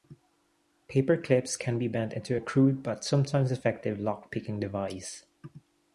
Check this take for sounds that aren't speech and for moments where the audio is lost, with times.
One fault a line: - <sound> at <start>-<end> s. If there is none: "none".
none